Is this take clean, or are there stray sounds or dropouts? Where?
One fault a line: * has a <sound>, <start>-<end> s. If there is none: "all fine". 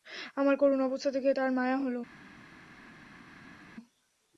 all fine